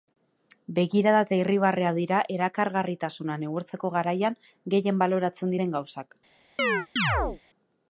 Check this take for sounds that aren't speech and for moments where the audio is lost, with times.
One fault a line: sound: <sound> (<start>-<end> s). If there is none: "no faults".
sound: chirp (6.6-7.4 s)